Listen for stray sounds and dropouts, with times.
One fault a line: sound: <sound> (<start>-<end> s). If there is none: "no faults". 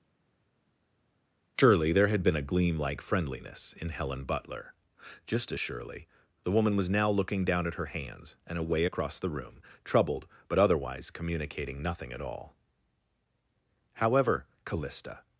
no faults